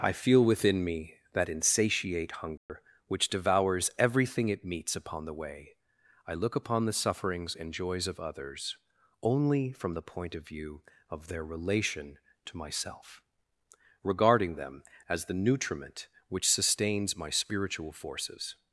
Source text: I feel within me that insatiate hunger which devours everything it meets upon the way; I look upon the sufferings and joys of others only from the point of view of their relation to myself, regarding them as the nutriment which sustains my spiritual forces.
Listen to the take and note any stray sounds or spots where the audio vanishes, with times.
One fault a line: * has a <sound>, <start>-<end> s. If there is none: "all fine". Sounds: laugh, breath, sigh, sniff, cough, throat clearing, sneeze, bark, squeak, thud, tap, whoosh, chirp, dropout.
* has a dropout, 2.6-2.7 s